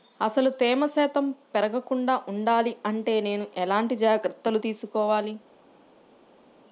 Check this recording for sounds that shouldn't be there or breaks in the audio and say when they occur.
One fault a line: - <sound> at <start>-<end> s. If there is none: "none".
none